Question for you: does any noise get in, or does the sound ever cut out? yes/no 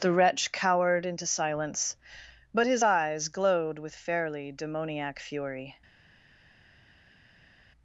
no